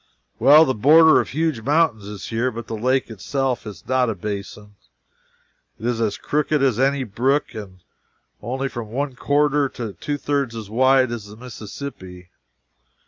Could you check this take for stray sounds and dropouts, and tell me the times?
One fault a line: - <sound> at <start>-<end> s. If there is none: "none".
none